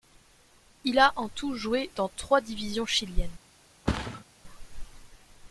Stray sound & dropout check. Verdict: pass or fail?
fail